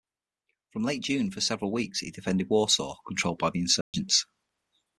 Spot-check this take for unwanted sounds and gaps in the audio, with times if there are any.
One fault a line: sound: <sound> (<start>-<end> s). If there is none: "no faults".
sound: dropout (3.8-3.9 s)